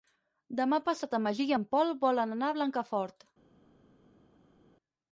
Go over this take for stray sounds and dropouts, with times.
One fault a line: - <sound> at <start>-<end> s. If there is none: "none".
none